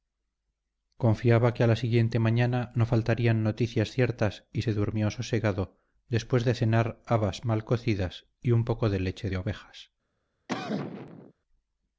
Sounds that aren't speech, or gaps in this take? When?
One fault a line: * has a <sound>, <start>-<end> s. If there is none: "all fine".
* has a cough, 10.5-11.3 s